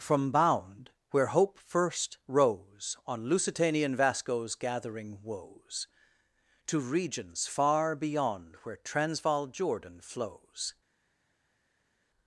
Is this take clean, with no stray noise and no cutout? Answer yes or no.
yes